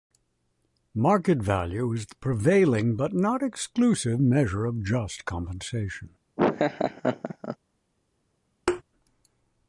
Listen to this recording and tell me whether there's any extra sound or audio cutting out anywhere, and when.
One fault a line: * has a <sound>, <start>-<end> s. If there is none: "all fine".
* has a laugh, 6.4-7.6 s
* has a thud, 8.7-8.8 s